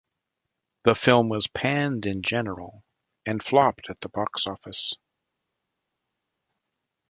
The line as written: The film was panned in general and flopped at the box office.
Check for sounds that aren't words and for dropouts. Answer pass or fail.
pass